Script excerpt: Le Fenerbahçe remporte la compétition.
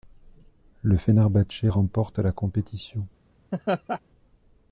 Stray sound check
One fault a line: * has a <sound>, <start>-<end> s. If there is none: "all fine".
* has a laugh, 3.5-4.0 s